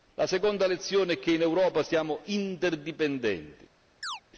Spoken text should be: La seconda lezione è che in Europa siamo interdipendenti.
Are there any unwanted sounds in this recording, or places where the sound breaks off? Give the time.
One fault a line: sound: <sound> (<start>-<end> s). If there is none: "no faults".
sound: chirp (4.0-4.2 s)